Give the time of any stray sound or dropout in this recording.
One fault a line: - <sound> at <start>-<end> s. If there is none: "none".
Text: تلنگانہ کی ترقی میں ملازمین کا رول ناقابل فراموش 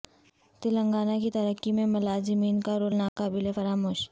- dropout at 3.1-3.2 s